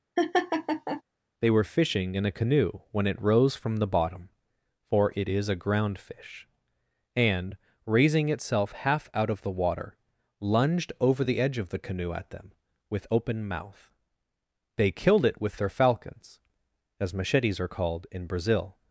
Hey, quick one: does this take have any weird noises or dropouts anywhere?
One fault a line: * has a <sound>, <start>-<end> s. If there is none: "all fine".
* has a laugh, 0.2-1.0 s